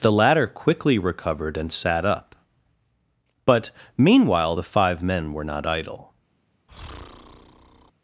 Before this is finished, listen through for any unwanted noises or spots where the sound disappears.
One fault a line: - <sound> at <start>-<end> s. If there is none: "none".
- breath at 6.7-7.9 s